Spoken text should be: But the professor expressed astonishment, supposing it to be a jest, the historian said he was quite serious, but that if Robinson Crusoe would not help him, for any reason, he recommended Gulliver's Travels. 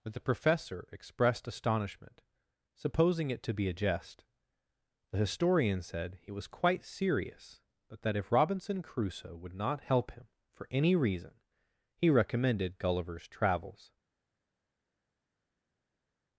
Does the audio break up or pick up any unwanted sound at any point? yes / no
no